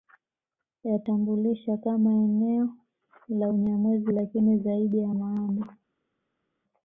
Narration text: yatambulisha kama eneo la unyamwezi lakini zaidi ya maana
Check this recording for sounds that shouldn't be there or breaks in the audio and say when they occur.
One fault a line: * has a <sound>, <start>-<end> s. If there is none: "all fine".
all fine